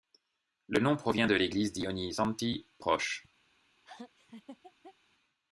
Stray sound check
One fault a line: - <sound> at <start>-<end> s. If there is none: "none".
- laugh at 3.8-4.9 s